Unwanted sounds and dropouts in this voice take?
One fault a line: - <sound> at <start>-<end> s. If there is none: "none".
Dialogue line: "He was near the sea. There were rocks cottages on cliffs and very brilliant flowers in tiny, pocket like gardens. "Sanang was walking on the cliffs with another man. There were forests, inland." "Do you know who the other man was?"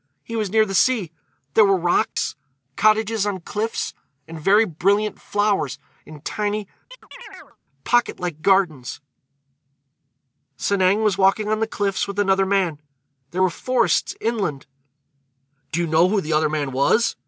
- dropout at 2.1-2.2 s
- chirp at 6.9-7.6 s